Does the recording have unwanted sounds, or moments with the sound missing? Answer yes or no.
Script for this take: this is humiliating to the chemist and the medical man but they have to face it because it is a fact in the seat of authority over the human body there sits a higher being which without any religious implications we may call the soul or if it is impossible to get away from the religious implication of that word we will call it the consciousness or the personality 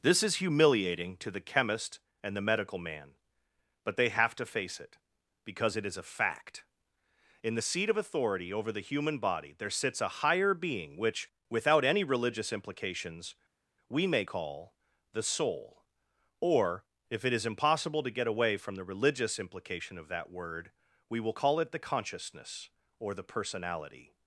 no